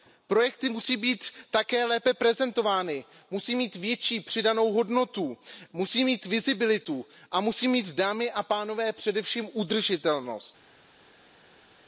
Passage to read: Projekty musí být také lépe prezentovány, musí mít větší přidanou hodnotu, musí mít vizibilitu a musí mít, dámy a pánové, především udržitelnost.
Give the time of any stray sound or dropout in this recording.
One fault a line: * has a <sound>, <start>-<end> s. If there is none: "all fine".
all fine